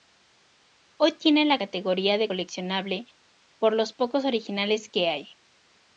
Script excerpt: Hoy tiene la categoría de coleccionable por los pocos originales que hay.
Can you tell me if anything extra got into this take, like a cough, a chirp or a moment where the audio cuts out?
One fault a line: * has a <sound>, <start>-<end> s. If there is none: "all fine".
all fine